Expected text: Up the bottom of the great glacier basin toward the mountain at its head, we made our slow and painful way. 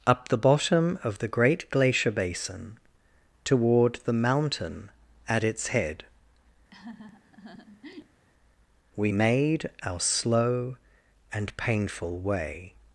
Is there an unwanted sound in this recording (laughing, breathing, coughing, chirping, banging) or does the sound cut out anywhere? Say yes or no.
yes